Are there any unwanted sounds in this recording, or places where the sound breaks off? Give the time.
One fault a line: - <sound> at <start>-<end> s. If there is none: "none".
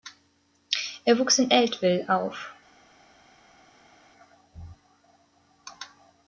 none